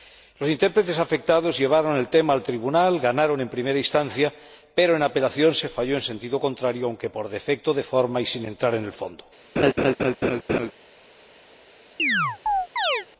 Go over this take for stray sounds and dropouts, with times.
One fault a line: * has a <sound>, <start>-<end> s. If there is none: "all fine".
* has a laugh, 9.6-10.7 s
* has a chirp, 12.0-13.1 s